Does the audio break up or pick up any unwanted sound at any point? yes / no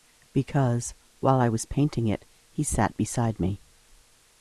no